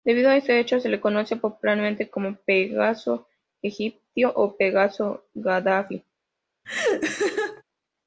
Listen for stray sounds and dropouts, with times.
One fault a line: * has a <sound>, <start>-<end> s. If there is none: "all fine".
* has a laugh, 6.6-7.6 s